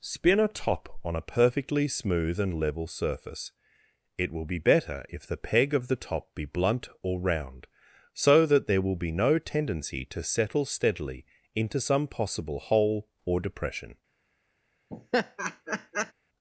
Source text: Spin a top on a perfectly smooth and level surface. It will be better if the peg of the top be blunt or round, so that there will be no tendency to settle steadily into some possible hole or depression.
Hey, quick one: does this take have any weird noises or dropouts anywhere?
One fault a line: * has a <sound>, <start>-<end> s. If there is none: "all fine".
* has a laugh, 14.9-16.1 s